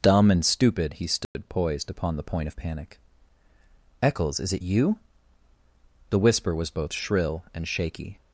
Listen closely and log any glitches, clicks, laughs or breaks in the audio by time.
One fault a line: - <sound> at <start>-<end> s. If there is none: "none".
- dropout at 1.2-1.3 s